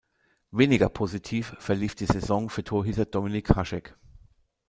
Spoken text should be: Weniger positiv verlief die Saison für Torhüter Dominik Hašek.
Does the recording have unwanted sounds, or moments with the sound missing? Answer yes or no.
no